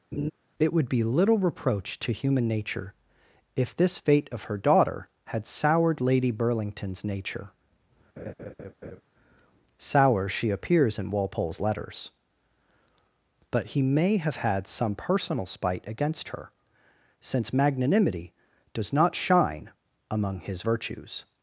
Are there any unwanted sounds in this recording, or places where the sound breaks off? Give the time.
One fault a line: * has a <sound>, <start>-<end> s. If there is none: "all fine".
* has a laugh, 0.1-0.3 s
* has a laugh, 8.2-9.0 s